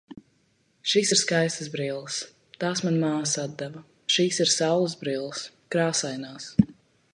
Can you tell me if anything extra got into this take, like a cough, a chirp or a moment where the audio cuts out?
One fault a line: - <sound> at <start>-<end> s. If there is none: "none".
none